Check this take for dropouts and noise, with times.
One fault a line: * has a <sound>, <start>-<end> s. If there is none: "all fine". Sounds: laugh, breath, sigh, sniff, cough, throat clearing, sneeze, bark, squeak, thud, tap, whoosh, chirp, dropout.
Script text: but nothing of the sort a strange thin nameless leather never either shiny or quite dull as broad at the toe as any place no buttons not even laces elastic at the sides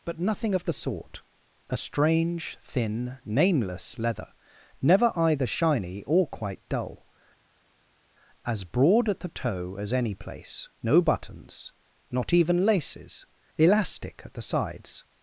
all fine